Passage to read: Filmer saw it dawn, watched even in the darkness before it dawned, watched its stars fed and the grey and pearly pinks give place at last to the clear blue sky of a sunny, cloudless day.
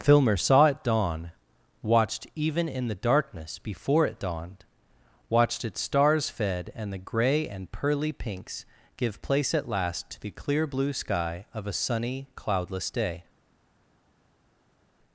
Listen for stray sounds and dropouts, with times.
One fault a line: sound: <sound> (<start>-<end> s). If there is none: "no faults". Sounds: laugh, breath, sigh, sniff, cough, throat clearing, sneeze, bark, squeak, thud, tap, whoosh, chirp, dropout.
no faults